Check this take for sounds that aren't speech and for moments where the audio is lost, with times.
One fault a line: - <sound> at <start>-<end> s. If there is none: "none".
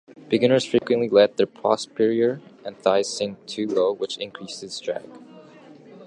- dropout at 0.8-0.8 s